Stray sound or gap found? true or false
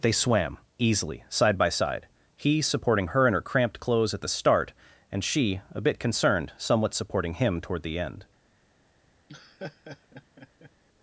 true